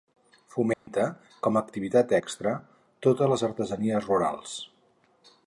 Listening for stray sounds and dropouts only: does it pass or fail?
fail